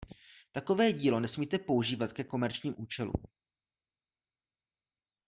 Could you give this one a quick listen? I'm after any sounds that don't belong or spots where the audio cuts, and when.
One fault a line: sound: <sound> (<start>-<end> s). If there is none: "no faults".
no faults